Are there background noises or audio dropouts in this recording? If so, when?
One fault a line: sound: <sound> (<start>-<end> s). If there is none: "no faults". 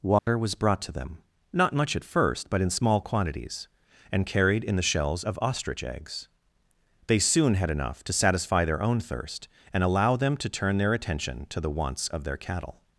sound: dropout (0.2-0.3 s)